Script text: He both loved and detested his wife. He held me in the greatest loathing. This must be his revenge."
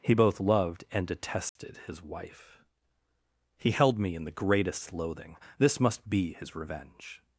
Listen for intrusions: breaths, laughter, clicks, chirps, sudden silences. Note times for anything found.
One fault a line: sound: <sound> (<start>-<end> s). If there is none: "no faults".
sound: dropout (1.5-1.6 s)